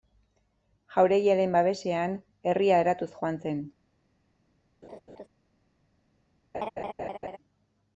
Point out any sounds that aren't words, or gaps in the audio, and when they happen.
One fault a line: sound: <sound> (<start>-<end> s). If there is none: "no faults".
sound: laugh (4.8-5.3 s)
sound: laugh (6.5-7.4 s)